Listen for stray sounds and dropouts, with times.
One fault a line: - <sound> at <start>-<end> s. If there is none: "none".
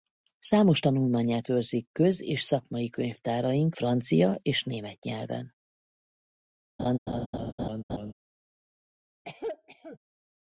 - laugh at 6.8-8.1 s
- cough at 9.2-10.0 s